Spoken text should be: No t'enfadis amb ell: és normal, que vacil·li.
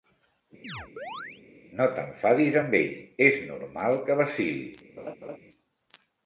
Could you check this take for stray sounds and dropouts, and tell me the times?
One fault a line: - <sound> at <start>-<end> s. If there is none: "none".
- chirp at 0.6-1.4 s
- laugh at 5.0-5.4 s